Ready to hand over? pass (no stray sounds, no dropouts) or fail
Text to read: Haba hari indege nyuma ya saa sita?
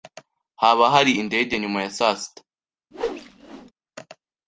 fail